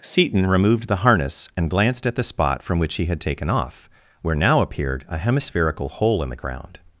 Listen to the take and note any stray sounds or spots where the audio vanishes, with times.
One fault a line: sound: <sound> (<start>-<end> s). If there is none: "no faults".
no faults